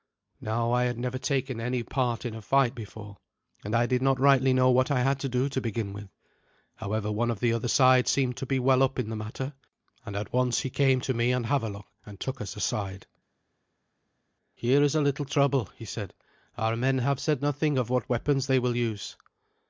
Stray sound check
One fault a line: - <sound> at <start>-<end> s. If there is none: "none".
none